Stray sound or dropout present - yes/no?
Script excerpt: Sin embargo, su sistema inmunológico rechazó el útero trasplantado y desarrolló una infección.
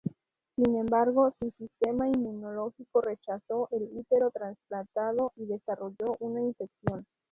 no